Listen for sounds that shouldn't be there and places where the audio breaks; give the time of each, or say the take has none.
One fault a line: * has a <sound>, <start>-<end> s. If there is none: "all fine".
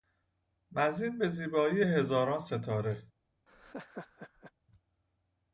* has a laugh, 3.5-4.5 s